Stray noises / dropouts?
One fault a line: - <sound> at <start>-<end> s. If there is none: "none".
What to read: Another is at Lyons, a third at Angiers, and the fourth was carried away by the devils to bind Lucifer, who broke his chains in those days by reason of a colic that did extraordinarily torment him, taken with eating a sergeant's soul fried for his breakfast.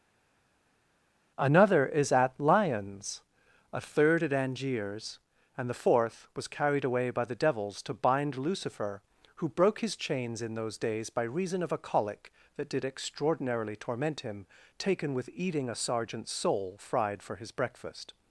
none